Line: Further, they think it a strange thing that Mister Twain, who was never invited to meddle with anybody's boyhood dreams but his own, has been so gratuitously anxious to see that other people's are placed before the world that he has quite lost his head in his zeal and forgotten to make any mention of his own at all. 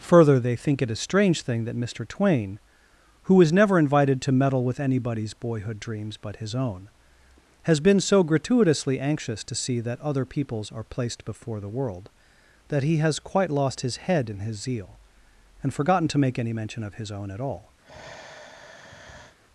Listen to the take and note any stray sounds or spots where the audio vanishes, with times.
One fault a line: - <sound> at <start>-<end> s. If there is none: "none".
- sigh at 17.8-19.4 s